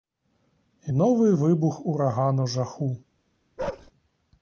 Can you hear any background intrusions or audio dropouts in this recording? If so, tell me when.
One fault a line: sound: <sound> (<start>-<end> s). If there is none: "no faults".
sound: bark (3.6-3.9 s)